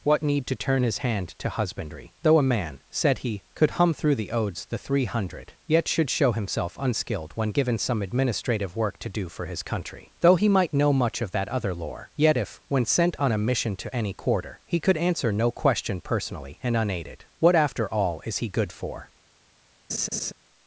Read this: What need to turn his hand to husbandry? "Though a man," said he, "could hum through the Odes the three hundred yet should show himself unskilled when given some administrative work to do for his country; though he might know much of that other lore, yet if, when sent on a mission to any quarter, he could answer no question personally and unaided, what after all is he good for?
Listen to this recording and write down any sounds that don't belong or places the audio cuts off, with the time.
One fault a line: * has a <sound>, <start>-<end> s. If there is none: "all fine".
* has a laugh, 19.9-20.3 s